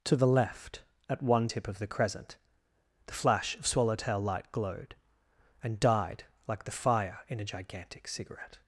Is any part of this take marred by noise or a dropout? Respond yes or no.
no